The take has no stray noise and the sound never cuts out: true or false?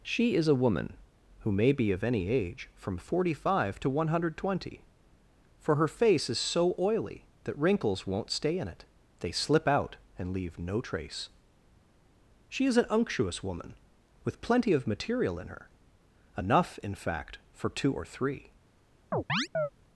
false